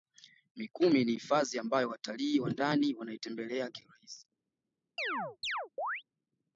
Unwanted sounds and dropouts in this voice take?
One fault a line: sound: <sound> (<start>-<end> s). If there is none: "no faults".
sound: chirp (5.0-6.0 s)